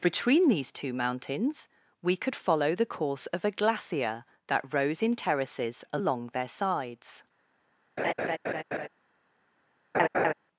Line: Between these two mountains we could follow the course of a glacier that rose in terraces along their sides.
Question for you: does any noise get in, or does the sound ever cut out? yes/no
yes